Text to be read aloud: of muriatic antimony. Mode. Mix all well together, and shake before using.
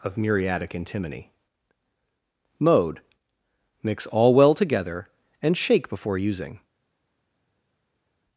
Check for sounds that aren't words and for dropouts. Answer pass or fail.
pass